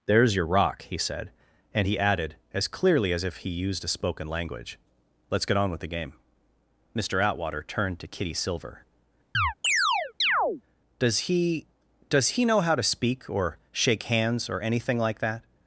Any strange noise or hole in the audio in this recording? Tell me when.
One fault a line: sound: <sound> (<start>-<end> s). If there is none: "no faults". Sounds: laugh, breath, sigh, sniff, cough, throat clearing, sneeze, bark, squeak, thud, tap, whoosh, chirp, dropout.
sound: chirp (9.3-10.6 s)